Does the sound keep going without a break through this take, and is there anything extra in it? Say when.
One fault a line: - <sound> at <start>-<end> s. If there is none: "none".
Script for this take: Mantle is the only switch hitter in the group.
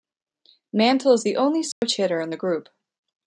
- dropout at 1.7-1.8 s